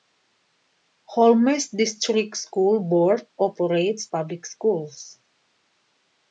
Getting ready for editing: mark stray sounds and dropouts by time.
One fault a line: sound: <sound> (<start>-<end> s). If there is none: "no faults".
no faults